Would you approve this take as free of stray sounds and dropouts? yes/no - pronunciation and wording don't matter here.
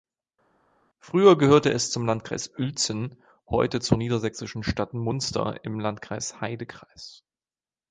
yes